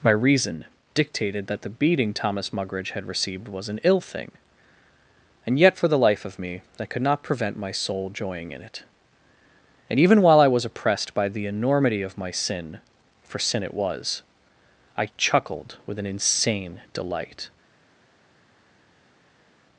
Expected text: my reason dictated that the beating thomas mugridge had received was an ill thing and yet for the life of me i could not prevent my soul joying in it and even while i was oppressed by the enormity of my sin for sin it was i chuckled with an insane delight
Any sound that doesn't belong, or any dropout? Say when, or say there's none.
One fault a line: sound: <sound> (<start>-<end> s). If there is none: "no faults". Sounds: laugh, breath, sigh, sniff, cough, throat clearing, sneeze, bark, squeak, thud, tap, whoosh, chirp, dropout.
no faults